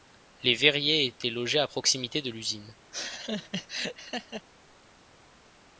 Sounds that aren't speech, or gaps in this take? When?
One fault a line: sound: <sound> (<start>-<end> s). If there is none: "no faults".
sound: laugh (2.9-4.5 s)